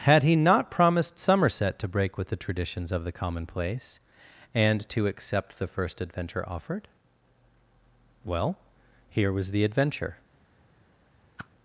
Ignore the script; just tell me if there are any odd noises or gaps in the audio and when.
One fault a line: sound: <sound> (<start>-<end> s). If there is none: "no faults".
sound: whoosh (11.4-11.5 s)